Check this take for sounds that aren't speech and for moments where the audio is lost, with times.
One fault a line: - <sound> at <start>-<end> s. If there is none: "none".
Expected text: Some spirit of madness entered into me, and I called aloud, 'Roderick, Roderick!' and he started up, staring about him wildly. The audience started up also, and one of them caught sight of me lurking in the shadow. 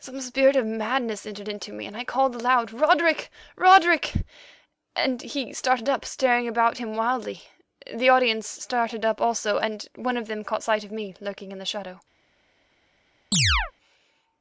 - chirp at 13.3-13.7 s